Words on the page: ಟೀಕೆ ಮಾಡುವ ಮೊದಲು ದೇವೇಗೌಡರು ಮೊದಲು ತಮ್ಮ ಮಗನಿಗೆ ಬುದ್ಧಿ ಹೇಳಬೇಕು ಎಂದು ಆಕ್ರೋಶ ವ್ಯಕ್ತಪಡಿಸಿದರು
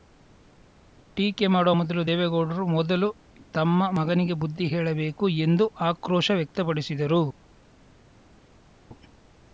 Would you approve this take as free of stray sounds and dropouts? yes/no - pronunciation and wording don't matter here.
yes